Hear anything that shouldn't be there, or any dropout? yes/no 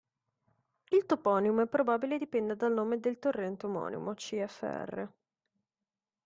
no